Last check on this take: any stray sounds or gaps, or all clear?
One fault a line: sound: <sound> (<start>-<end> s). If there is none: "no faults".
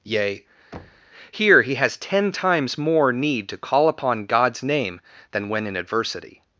sound: thud (0.7-1.1 s)